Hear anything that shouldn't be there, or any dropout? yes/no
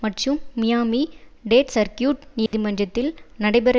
yes